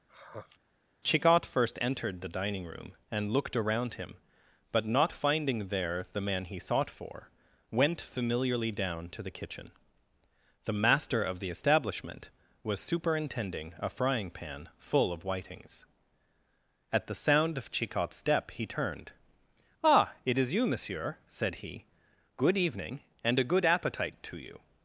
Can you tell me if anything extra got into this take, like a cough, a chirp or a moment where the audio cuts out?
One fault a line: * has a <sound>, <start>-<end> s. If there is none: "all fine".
* has a sigh, 0.1-0.6 s